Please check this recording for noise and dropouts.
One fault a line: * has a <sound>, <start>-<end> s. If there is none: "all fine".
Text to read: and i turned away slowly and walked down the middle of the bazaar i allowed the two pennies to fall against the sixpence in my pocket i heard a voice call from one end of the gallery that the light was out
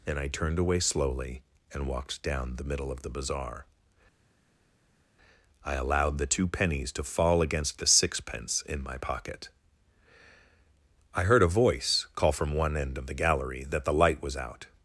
all fine